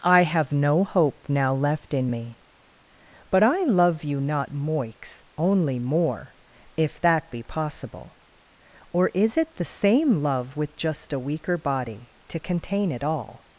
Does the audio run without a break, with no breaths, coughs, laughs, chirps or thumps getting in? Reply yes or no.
yes